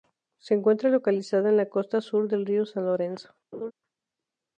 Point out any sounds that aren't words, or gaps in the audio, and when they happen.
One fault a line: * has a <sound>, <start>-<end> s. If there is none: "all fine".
* has a laugh, 3.5-3.7 s